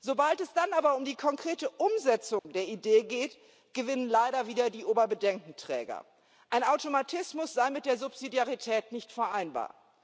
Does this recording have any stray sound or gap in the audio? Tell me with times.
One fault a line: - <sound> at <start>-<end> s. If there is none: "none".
- dropout at 2.4-2.4 s